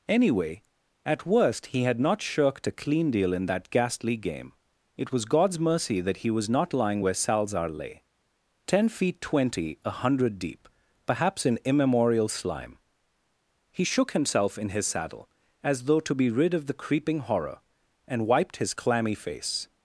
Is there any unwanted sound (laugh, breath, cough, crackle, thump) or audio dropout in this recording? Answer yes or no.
no